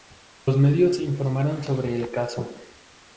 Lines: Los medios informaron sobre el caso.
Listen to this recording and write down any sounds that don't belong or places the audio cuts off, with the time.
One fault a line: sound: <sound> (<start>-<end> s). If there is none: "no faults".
no faults